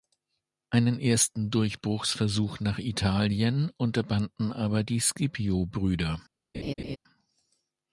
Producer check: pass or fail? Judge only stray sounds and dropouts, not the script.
fail